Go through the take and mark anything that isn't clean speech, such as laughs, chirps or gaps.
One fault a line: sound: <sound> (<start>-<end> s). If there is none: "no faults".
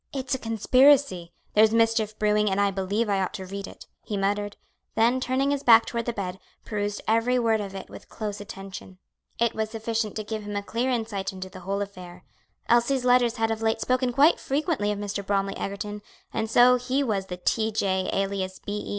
no faults